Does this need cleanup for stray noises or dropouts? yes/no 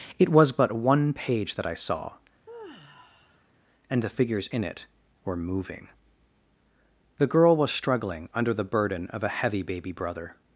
yes